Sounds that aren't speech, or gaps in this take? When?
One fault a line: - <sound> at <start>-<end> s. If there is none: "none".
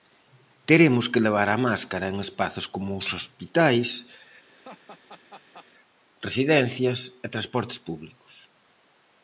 - laugh at 4.5-5.7 s